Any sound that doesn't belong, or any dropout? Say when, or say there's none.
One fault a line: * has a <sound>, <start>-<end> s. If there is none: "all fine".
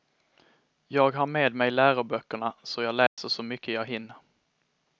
* has a dropout, 3.1-3.2 s